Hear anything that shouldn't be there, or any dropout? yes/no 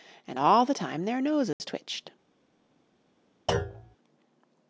yes